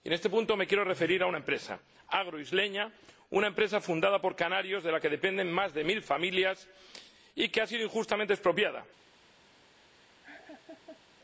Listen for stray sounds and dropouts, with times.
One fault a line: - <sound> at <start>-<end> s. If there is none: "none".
- laugh at 10.2-11.0 s